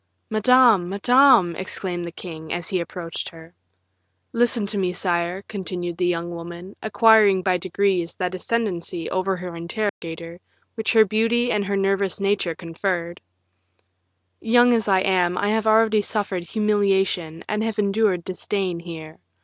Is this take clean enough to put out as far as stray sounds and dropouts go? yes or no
no